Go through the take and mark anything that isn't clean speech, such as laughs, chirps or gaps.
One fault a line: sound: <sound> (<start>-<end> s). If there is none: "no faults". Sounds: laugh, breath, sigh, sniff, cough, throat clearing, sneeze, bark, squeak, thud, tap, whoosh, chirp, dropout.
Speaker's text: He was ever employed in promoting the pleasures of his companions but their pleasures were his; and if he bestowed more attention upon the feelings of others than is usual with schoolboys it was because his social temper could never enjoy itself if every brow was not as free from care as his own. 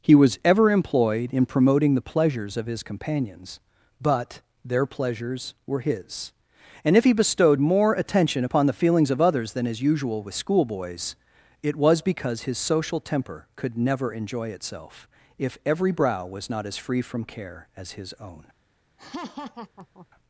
sound: laugh (19.0-20.1 s)